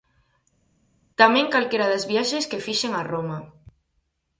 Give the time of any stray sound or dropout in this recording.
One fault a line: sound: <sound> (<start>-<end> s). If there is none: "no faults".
no faults